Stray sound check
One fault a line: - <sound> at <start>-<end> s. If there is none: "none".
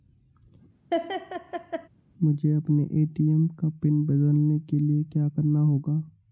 - laugh at 0.9-1.9 s